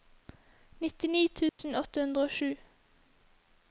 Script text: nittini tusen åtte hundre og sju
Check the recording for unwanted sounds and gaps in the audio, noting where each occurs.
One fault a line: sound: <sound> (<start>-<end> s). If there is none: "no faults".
sound: dropout (1.5-1.6 s)